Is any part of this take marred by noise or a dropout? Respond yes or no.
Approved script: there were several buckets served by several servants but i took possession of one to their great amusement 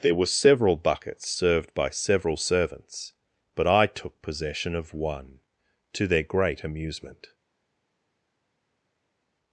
no